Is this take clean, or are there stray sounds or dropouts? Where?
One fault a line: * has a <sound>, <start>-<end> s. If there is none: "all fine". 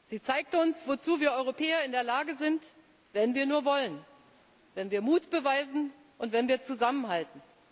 all fine